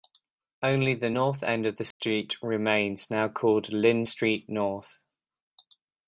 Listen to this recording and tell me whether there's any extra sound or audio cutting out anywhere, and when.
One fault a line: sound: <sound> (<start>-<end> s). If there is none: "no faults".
sound: dropout (1.9-2.0 s)